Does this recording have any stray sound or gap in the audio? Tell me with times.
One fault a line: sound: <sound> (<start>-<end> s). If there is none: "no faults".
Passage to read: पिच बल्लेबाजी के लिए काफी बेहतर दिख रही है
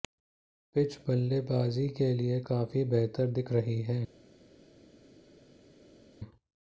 no faults